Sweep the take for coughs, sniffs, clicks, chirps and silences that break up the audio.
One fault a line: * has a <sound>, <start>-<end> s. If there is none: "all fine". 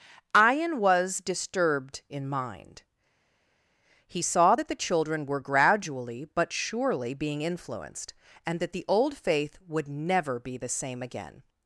all fine